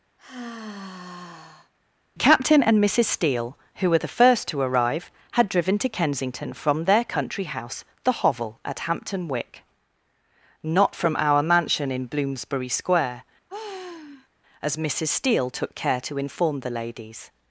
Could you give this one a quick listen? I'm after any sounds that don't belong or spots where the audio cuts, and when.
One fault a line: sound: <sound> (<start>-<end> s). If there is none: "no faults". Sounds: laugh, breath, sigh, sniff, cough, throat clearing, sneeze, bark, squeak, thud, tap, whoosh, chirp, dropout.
sound: sigh (0.2-1.7 s)
sound: sigh (13.5-14.3 s)